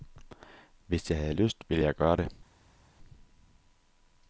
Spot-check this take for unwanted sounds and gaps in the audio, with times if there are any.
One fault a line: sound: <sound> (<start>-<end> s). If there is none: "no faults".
no faults